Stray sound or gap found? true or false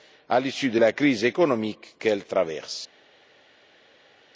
false